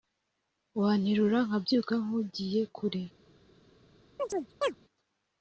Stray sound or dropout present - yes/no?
yes